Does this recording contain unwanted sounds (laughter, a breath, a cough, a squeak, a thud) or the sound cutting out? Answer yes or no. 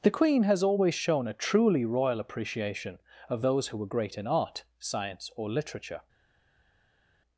no